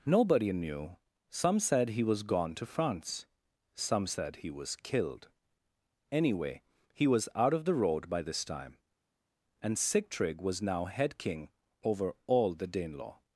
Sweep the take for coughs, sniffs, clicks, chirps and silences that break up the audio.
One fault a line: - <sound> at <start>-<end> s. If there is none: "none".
none